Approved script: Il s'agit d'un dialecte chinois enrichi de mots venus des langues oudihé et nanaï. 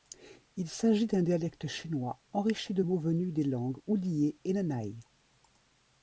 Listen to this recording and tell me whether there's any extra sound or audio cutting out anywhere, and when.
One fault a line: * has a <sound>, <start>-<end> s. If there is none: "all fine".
all fine